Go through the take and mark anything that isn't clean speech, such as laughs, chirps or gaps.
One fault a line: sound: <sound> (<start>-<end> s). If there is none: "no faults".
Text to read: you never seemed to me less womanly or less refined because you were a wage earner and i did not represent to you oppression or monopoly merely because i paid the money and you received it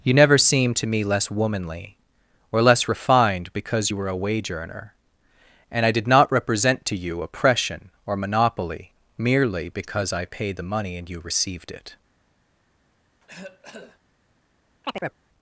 sound: cough (13.2-14.0 s)
sound: chirp (14.8-15.2 s)